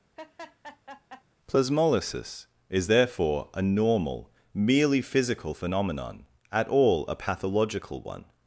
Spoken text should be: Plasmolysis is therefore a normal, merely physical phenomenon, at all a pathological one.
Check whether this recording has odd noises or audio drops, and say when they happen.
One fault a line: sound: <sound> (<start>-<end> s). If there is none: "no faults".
sound: laugh (0.2-1.2 s)